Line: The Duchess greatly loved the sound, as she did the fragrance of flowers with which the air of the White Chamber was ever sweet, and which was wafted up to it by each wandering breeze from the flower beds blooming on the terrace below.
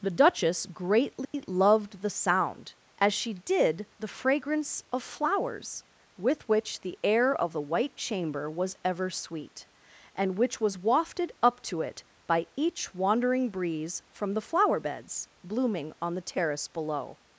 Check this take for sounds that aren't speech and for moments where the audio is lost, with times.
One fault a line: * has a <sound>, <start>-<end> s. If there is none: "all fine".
* has a dropout, 1.2-1.3 s